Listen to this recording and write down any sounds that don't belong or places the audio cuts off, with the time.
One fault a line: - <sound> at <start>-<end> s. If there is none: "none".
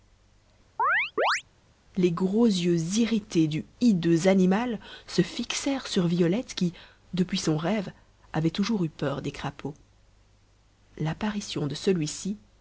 - chirp at 0.8-1.4 s